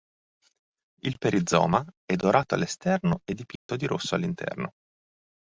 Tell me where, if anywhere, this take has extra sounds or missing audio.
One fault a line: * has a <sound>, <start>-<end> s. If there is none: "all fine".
* has a dropout, 3.6-3.7 s